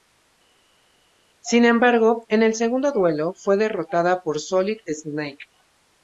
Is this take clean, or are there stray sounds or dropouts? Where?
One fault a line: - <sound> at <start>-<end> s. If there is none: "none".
none